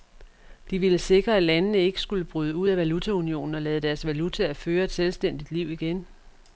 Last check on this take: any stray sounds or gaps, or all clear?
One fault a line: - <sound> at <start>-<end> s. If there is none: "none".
none